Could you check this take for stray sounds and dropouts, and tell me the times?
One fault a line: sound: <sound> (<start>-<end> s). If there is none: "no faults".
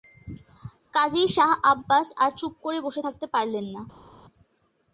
no faults